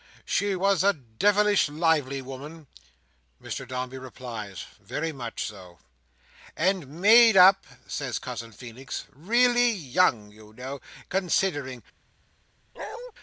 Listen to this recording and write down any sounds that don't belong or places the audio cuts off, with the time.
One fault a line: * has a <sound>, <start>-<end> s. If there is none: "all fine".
* has a bark, 12.7-13.1 s